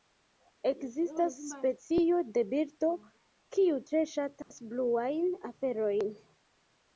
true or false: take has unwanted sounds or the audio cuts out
true